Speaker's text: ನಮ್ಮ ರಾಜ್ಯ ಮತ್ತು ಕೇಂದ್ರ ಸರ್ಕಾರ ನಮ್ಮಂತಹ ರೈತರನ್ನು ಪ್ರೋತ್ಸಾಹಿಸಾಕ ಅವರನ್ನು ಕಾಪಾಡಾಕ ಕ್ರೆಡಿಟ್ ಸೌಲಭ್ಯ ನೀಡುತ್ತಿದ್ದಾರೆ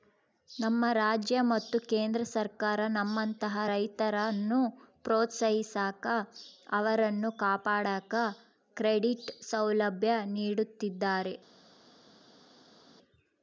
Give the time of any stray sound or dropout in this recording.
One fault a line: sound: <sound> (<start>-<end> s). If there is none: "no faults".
no faults